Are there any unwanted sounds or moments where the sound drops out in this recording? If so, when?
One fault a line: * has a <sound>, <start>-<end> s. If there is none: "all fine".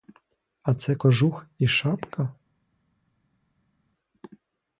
all fine